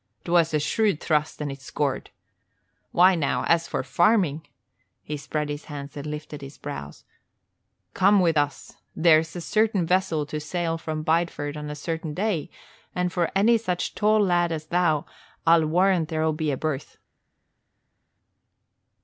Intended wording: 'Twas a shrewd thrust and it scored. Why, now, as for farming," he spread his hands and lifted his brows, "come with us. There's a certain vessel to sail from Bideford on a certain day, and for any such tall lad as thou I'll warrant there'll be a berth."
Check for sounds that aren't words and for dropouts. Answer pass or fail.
pass